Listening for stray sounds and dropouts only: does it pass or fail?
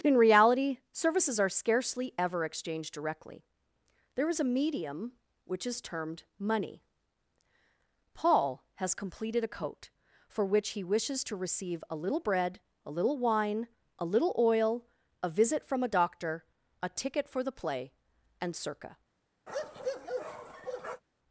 fail